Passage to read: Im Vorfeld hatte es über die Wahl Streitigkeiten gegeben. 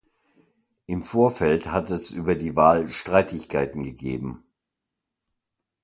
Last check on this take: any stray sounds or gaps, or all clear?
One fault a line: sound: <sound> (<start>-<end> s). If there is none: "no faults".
no faults